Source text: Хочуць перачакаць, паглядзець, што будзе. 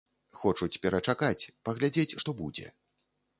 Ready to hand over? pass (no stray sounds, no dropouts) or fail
pass